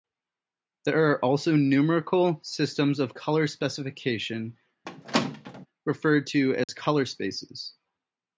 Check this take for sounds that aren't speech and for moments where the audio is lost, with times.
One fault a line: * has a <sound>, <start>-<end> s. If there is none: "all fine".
* has a squeak, 4.9-5.7 s
* has a dropout, 6.6-6.7 s